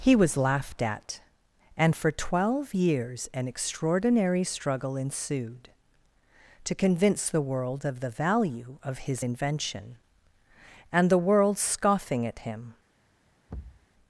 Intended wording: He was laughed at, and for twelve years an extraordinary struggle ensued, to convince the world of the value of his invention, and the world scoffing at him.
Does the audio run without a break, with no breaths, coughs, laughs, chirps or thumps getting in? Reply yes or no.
no